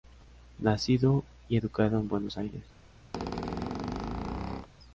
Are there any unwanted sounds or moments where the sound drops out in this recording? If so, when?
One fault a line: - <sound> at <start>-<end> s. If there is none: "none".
- squeak at 3.1-4.7 s